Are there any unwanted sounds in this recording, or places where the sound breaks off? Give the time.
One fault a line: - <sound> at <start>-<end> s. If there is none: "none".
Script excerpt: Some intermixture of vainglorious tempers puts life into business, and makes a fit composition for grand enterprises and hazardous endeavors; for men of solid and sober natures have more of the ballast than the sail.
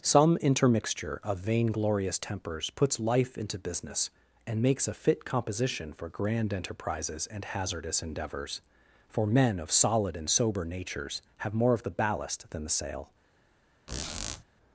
- squeak at 13.9-14.4 s